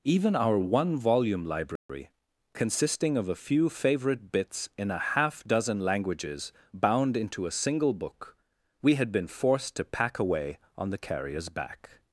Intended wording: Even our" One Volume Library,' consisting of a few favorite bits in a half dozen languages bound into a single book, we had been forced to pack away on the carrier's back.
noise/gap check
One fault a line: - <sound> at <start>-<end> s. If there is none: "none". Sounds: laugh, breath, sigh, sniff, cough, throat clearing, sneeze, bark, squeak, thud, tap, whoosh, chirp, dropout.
- dropout at 1.8-1.9 s